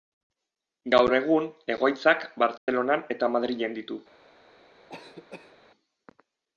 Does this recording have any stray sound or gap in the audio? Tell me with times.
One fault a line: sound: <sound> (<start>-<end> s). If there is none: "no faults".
sound: dropout (2.6-2.7 s)
sound: cough (4.9-5.6 s)